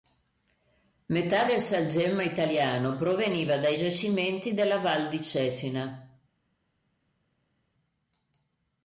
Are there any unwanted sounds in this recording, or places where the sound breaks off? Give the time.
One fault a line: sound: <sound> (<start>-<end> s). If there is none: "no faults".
no faults